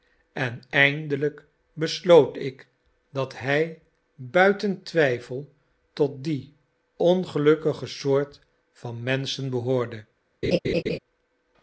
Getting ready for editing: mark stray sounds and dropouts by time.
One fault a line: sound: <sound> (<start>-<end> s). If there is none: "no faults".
sound: laugh (10.4-11.0 s)